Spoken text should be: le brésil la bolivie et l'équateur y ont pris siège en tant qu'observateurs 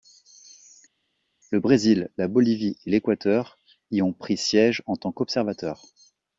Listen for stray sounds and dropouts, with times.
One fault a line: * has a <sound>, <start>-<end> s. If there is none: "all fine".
all fine